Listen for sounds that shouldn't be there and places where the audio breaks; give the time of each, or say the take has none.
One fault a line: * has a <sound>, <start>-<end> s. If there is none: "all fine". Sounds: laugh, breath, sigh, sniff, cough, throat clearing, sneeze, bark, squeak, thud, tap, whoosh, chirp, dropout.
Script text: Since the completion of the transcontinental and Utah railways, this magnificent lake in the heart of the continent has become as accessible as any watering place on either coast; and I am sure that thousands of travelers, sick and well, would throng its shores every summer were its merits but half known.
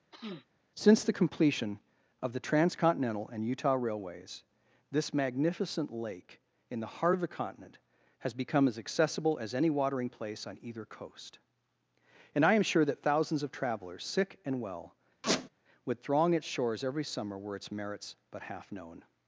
* has a sniff, 0.1-0.5 s
* has a squeak, 15.2-15.5 s